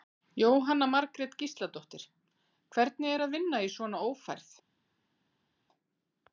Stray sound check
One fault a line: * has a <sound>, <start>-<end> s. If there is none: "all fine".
all fine